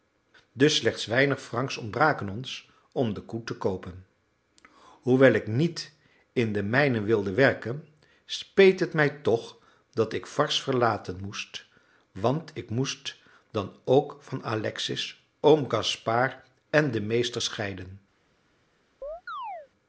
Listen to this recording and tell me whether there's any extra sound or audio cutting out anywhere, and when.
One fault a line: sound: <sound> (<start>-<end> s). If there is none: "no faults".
sound: chirp (19.0-19.7 s)